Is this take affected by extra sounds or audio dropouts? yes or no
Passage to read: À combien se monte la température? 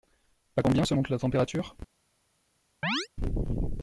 yes